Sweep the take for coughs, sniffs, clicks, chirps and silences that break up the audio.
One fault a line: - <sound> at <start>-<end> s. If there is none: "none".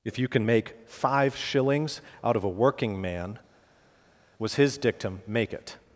none